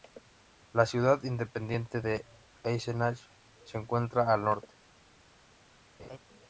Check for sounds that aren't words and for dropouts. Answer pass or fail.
fail